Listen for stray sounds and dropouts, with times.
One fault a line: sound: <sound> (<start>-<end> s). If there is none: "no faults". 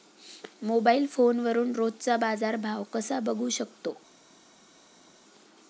no faults